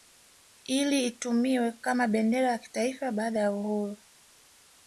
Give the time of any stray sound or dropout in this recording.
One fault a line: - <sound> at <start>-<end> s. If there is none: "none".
none